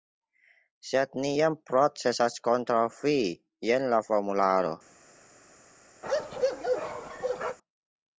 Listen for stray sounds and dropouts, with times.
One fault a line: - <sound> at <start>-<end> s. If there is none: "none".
- bark at 6.0-7.6 s